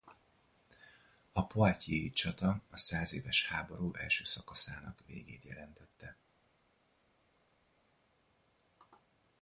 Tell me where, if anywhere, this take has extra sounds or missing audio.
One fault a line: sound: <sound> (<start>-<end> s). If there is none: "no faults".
no faults